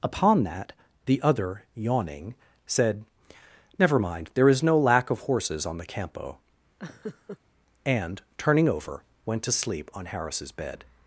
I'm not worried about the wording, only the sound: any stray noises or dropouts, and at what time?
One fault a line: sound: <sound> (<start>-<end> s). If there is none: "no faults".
sound: laugh (6.8-7.4 s)